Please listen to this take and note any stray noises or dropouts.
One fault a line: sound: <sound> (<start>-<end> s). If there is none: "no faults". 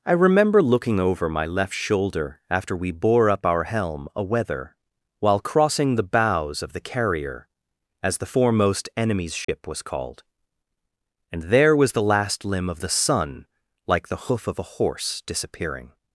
sound: dropout (9.4-9.5 s)